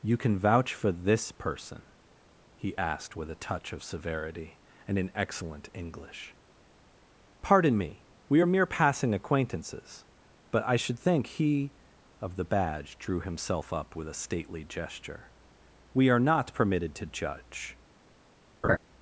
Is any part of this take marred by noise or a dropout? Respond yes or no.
yes